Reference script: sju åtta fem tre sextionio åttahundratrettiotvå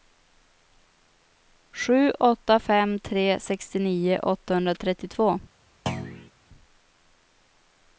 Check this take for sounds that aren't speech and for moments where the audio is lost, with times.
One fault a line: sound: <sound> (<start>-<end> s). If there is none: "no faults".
sound: thud (5.9-6.3 s)